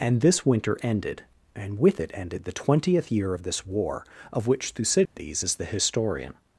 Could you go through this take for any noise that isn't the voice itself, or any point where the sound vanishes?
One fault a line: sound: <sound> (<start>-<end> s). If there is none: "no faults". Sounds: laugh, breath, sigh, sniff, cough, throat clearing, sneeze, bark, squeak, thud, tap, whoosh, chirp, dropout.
sound: dropout (5.1-5.2 s)